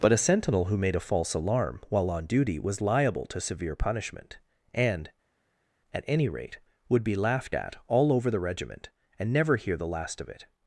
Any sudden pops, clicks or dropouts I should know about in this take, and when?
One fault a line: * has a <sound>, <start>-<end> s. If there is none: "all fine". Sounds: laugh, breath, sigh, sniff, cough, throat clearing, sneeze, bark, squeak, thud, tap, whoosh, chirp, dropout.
all fine